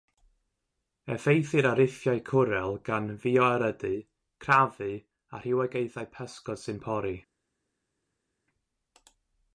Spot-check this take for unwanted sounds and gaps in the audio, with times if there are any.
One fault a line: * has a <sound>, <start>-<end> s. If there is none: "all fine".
all fine